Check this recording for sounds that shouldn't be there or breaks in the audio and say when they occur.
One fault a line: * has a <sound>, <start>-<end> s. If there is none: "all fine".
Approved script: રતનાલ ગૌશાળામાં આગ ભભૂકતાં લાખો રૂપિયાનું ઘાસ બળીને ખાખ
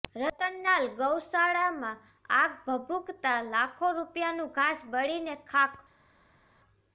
all fine